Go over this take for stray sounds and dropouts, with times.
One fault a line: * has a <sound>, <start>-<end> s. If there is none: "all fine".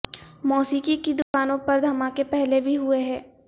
* has a dropout, 1.2-1.3 s